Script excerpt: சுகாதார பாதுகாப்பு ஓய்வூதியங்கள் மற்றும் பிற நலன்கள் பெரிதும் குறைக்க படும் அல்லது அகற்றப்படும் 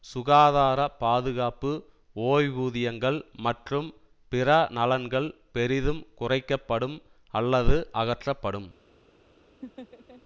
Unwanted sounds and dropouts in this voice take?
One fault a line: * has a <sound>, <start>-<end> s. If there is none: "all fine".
* has a laugh, 9.6-10.2 s